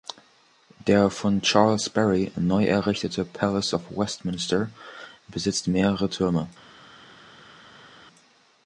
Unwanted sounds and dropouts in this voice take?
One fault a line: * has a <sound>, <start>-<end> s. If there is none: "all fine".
all fine